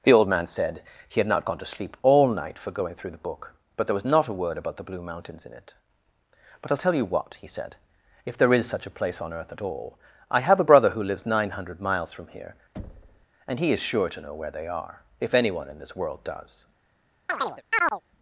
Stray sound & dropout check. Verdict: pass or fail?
fail